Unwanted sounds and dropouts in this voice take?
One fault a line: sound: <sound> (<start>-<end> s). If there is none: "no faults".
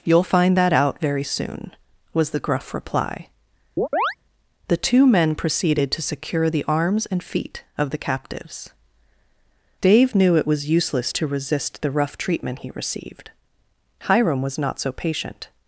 sound: chirp (3.8-4.2 s)